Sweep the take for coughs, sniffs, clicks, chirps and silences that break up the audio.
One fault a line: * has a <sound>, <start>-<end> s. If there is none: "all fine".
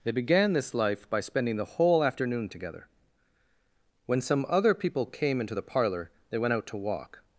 all fine